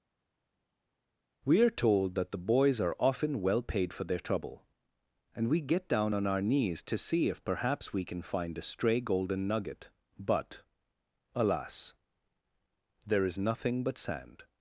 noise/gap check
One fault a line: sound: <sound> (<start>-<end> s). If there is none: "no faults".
no faults